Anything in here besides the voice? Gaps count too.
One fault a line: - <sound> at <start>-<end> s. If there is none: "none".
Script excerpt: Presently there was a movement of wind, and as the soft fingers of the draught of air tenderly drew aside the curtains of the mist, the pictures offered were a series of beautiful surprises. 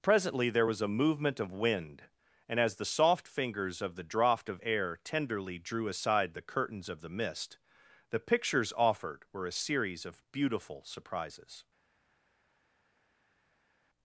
none